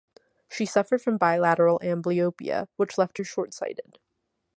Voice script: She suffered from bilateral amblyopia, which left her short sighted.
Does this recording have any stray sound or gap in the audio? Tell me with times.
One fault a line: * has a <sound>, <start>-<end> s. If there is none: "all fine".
all fine